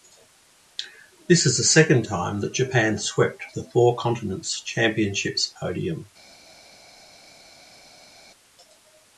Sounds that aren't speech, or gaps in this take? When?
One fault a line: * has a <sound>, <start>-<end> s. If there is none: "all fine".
all fine